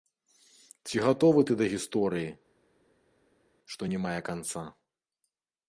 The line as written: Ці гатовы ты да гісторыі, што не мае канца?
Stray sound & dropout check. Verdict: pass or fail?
pass